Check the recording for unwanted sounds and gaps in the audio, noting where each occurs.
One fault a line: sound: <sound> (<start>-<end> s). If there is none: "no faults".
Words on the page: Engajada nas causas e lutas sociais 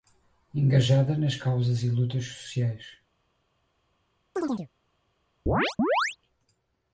sound: chirp (4.4-4.7 s)
sound: chirp (5.5-6.2 s)